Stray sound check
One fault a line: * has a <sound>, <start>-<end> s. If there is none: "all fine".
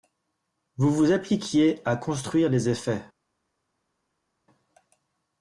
all fine